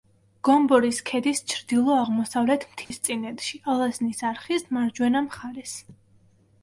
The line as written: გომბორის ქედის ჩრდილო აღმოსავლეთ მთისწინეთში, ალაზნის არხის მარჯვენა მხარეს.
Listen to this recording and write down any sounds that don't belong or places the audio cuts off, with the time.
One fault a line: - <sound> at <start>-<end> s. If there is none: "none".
- dropout at 2.8-2.9 s